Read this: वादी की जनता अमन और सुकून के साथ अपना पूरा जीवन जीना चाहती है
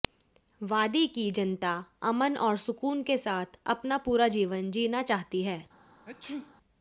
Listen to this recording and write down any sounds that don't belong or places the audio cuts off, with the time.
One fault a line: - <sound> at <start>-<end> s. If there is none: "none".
- sneeze at 6.1-6.5 s